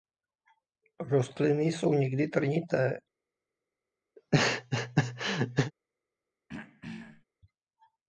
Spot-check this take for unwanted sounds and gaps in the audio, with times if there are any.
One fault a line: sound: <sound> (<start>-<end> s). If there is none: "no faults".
sound: laugh (4.2-5.7 s)
sound: throat clearing (6.5-7.2 s)